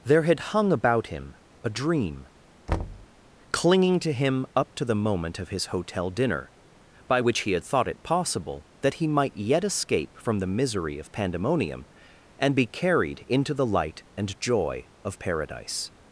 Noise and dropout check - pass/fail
fail